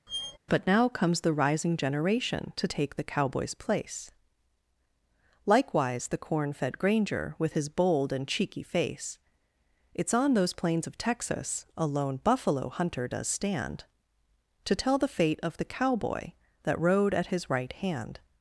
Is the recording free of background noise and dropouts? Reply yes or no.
no